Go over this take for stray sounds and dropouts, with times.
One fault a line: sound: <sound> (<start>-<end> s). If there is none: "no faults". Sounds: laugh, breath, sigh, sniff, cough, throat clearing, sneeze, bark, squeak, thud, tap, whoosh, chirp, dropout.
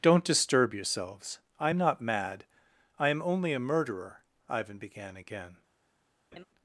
sound: laugh (6.3-6.5 s)